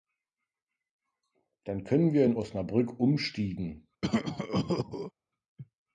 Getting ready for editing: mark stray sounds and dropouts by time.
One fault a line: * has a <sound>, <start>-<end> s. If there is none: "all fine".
* has a cough, 4.0-5.1 s